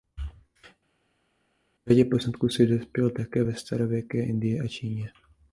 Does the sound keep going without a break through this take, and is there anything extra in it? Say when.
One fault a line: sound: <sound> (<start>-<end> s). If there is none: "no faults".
no faults